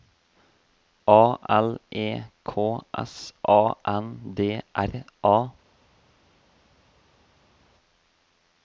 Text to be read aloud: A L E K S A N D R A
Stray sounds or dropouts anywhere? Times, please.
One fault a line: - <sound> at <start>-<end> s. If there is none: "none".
none